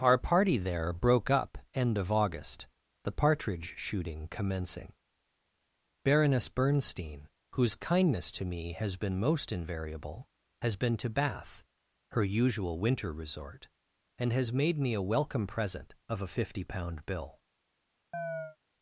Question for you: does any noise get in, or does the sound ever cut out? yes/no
yes